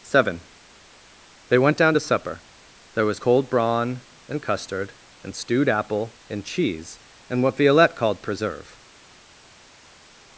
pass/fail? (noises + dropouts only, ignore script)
pass